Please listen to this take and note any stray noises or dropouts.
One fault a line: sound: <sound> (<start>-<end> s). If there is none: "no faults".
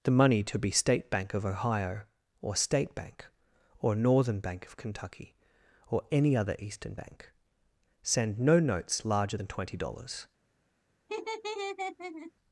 sound: laugh (11.1-12.3 s)